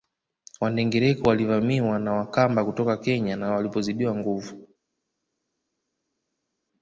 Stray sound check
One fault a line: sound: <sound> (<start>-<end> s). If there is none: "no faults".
no faults